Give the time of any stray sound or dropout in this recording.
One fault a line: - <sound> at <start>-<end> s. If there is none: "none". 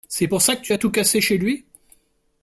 none